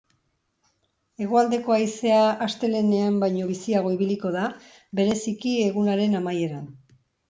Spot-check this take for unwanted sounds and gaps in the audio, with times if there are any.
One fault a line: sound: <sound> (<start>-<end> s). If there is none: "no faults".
no faults